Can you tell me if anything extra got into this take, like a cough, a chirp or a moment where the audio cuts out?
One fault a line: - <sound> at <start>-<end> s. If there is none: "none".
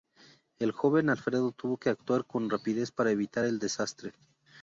none